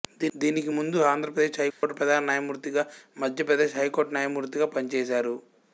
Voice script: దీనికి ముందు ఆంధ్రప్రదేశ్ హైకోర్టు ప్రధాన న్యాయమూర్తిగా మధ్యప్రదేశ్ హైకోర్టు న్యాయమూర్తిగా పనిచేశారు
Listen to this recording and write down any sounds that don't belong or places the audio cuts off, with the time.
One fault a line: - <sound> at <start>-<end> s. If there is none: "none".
- dropout at 1.7-1.8 s